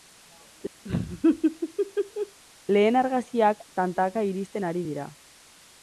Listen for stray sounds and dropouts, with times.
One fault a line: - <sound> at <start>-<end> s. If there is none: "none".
- laugh at 0.8-2.4 s